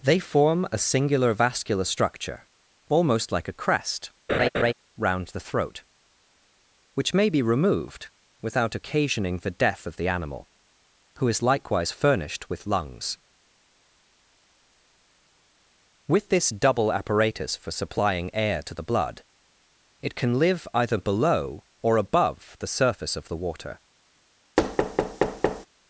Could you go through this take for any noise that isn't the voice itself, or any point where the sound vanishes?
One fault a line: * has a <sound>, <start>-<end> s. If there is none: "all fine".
* has a laugh, 4.3-4.7 s
* has a thud, 24.6-25.7 s